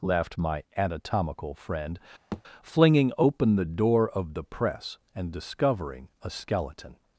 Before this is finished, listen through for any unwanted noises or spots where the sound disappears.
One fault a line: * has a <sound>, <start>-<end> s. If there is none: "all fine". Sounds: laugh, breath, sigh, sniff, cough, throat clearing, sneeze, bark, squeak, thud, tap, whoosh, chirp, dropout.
* has a thud, 2.3-2.4 s